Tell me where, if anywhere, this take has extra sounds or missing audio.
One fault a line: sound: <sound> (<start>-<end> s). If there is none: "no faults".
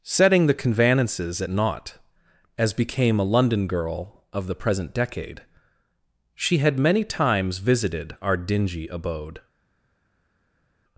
no faults